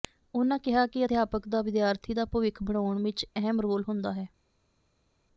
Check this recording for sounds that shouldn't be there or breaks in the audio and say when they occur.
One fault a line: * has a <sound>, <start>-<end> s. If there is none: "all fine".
all fine